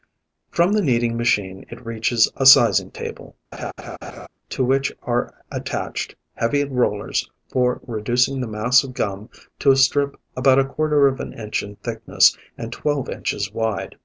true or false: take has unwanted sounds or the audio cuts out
true